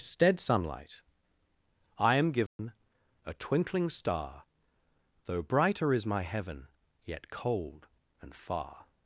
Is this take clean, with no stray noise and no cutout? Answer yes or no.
no